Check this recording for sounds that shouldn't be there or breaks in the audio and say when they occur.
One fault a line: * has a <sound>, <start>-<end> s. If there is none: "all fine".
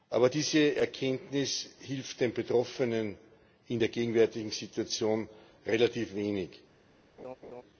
* has a laugh, 7.2-7.6 s